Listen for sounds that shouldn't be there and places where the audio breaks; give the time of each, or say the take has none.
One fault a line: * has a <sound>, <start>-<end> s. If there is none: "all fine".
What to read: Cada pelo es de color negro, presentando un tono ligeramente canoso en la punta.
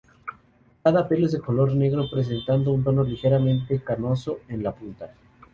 all fine